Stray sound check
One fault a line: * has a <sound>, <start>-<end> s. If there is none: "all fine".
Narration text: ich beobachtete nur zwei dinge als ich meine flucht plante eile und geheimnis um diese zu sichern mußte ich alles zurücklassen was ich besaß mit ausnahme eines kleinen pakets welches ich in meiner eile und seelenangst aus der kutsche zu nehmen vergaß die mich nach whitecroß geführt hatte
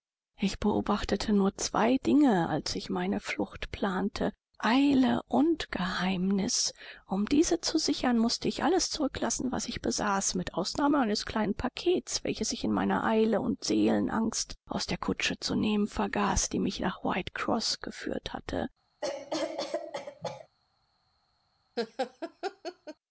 * has a cough, 19.0-20.5 s
* has a laugh, 21.8-23.0 s